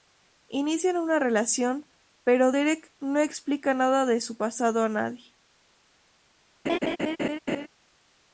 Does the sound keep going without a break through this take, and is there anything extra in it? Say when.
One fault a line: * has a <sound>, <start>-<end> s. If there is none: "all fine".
* has a laugh, 6.7-7.7 s